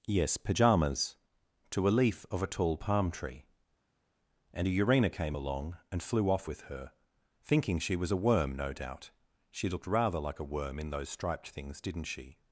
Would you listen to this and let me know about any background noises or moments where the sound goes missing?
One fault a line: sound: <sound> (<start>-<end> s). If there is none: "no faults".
no faults